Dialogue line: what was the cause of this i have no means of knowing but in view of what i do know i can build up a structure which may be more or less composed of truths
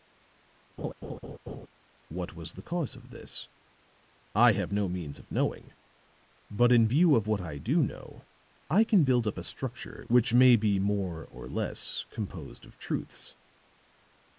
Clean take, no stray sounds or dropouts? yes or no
no